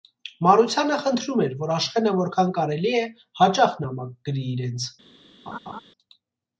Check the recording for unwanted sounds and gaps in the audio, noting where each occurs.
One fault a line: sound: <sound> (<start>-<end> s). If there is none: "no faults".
sound: laugh (5.5-5.8 s)